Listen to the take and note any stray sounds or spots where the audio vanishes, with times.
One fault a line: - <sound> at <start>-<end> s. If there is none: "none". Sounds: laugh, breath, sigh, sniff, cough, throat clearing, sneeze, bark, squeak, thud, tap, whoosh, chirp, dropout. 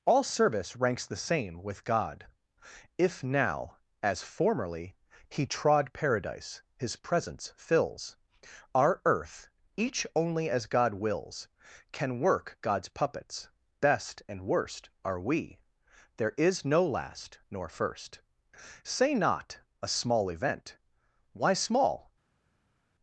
none